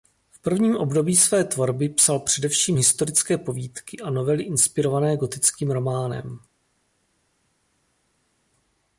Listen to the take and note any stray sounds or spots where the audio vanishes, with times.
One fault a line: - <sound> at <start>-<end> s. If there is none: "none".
none